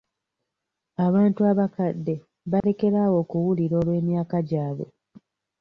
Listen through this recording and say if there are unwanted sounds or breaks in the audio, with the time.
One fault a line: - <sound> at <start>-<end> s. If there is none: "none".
- dropout at 2.6-2.6 s